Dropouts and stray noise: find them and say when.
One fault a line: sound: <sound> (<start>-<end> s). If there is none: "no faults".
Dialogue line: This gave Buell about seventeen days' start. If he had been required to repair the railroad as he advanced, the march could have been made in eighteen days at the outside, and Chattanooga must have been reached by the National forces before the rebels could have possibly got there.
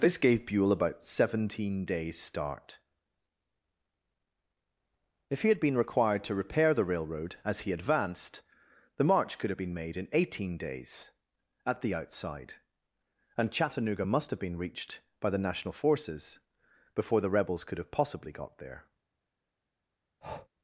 sound: breath (20.2-20.5 s)